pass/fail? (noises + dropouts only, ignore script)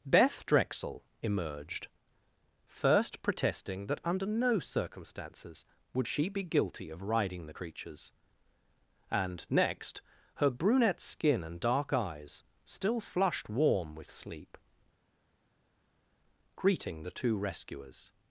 pass